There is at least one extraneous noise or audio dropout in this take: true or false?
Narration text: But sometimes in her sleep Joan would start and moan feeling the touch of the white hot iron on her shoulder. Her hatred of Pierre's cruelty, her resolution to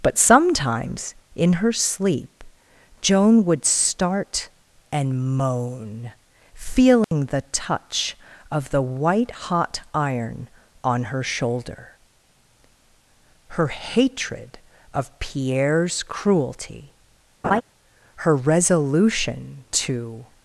true